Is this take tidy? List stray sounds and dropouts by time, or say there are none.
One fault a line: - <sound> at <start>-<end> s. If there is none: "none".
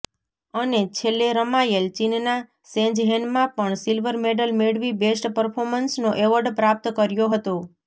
none